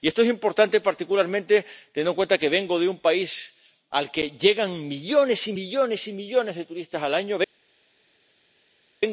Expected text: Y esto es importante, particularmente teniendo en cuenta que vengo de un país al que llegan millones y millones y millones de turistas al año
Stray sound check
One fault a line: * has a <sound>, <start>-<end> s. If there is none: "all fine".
all fine